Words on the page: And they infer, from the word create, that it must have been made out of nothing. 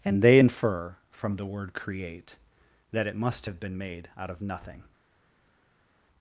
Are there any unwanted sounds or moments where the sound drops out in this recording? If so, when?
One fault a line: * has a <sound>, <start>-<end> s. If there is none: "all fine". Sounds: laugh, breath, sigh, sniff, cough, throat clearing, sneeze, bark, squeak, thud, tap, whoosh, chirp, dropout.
all fine